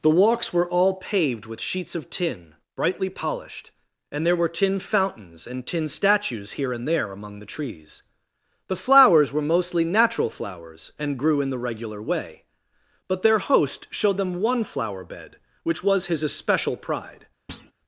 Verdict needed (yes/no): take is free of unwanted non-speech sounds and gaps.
no